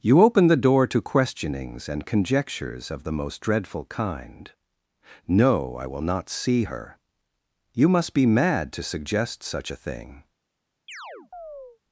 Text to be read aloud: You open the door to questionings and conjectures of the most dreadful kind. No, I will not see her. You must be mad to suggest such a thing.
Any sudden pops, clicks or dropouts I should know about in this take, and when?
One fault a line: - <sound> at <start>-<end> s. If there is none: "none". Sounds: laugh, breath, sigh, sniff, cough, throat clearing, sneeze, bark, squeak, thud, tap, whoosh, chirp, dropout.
- chirp at 10.9-11.8 s